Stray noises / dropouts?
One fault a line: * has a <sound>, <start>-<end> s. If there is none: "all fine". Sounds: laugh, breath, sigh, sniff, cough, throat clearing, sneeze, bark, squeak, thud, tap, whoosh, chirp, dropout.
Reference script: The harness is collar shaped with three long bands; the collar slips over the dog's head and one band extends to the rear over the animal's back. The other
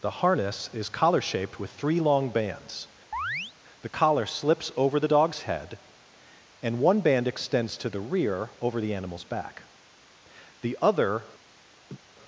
* has a chirp, 3.1-3.5 s
* has a laugh, 11.9-12.0 s